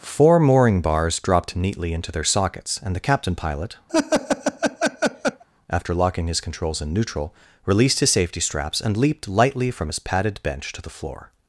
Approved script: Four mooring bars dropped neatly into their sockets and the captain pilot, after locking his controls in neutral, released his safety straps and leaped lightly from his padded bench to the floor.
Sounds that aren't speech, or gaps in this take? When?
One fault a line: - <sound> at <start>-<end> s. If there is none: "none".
- laugh at 3.9-5.4 s